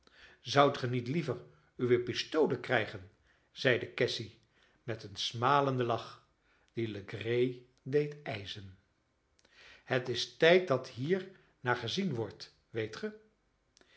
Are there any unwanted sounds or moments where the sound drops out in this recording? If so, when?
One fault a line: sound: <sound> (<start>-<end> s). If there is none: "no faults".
no faults